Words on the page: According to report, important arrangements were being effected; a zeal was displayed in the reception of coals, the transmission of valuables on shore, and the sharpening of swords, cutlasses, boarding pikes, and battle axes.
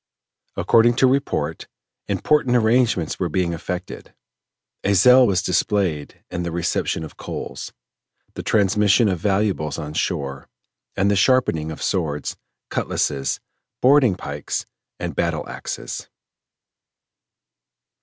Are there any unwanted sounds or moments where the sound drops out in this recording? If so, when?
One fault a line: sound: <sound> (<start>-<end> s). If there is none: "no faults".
no faults